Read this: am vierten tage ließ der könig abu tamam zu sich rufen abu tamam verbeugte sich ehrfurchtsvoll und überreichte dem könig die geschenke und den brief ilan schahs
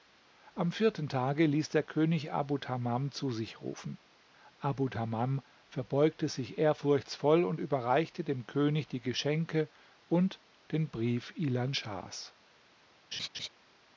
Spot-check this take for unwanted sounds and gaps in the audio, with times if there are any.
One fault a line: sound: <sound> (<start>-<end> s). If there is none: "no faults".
sound: laugh (13.1-13.5 s)